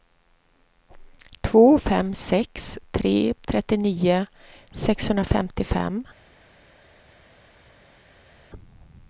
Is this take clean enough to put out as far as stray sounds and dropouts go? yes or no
yes